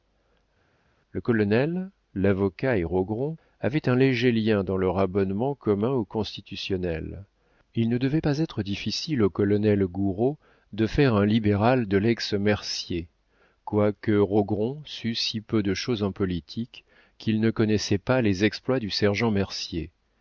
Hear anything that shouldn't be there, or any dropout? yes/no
no